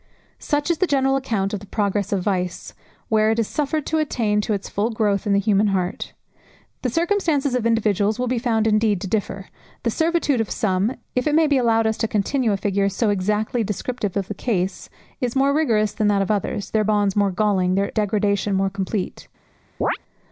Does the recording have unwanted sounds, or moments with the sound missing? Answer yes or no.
yes